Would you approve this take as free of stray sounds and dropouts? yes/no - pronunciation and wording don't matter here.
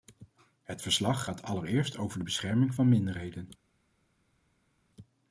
yes